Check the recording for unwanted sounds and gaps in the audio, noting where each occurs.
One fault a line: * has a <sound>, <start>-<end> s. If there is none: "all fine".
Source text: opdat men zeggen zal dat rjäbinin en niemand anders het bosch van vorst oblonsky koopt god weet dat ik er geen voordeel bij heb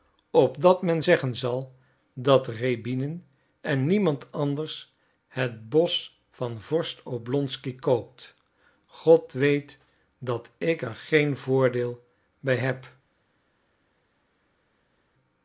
all fine